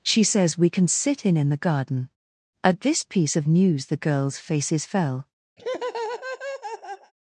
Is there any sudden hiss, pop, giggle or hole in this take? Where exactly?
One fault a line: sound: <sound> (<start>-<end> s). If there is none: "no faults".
sound: laugh (5.6-7.1 s)